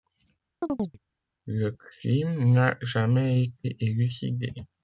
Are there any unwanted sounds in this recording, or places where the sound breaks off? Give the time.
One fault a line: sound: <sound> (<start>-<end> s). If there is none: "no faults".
sound: chirp (0.6-1.0 s)